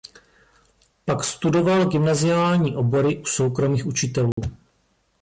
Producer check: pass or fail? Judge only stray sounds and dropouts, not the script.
fail